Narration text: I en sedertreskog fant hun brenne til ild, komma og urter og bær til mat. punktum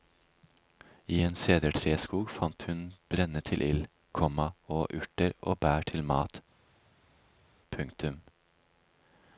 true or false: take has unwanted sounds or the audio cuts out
false